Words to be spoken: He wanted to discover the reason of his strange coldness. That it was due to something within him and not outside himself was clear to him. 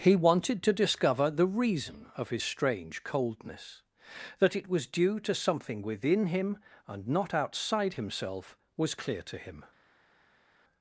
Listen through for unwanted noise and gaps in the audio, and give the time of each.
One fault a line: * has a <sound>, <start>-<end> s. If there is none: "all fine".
all fine